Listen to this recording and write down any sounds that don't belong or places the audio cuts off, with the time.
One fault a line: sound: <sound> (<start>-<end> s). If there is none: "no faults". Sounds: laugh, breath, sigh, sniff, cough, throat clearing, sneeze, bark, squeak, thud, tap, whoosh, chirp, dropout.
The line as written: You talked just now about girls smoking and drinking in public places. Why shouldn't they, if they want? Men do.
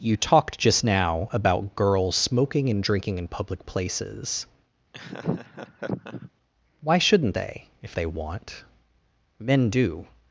sound: laugh (4.9-6.3 s)